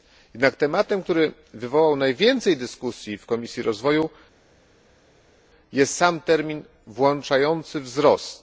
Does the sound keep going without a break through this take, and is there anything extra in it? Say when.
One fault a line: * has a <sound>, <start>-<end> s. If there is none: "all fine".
all fine